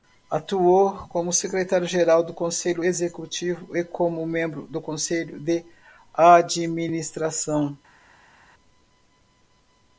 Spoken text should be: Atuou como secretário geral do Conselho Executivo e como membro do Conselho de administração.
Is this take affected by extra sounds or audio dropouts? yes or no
no